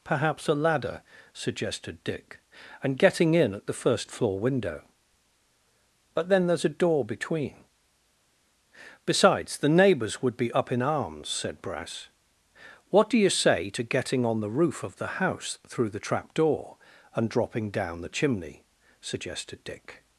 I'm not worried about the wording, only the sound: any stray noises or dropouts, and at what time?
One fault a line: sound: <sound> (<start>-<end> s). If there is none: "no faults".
no faults